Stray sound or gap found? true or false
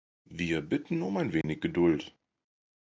true